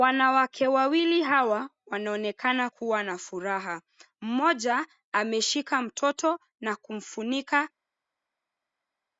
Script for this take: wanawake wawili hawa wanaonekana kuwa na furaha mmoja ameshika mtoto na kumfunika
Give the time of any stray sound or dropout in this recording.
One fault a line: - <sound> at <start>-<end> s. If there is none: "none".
none